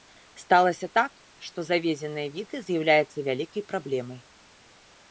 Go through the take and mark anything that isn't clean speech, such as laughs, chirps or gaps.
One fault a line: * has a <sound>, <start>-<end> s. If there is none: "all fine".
all fine